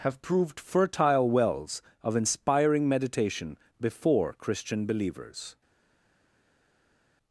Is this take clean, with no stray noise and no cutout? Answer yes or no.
yes